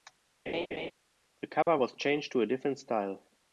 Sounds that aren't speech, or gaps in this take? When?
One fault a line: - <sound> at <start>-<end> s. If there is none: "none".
- laugh at 0.5-0.9 s
- dropout at 1.6-1.7 s